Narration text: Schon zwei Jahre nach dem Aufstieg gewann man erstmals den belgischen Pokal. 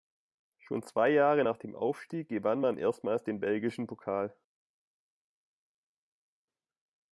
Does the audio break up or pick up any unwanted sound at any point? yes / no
no